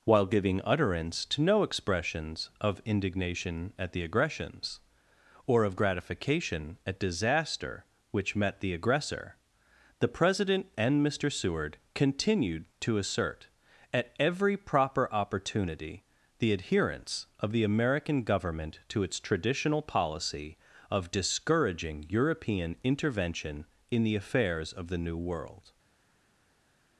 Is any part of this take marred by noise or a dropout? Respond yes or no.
no